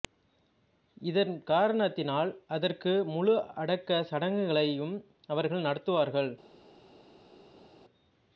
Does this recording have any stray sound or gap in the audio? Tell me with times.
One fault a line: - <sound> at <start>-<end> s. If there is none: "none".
none